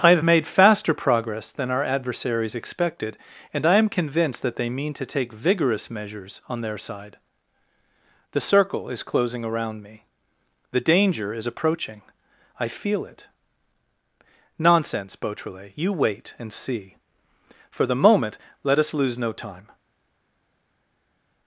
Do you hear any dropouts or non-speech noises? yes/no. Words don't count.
no